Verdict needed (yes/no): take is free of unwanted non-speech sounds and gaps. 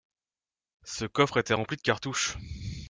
yes